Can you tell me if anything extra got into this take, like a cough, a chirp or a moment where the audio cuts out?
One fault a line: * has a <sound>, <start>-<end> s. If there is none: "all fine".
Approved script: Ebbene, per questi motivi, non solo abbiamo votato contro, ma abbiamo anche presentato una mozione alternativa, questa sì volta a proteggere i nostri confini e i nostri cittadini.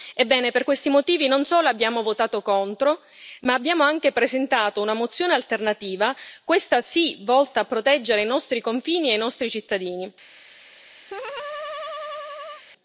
* has a laugh, 11.1-12.6 s